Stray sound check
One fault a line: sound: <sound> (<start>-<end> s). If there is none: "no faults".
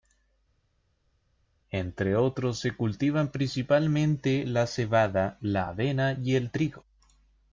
no faults